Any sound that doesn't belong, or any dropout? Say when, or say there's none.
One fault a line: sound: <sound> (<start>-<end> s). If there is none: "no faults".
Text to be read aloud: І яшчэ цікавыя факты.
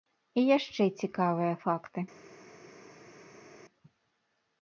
no faults